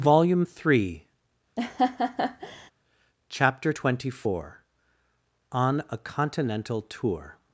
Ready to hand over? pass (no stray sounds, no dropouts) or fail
fail